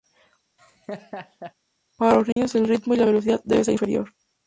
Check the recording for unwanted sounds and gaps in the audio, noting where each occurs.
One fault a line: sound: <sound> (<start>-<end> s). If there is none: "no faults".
sound: laugh (0.6-1.5 s)
sound: dropout (2.3-2.4 s)